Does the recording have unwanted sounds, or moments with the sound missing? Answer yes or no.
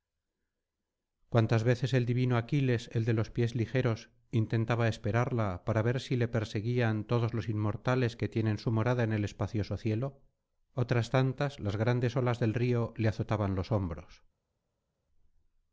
no